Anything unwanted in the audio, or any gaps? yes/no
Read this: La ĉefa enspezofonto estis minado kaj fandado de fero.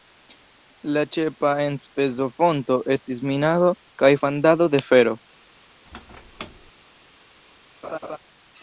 yes